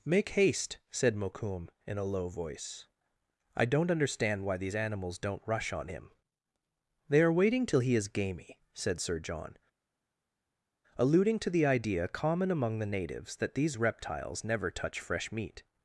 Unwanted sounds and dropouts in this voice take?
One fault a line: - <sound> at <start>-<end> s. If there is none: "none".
none